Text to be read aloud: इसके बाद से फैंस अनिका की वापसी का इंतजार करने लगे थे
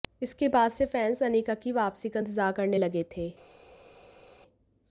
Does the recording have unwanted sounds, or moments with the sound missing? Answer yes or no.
no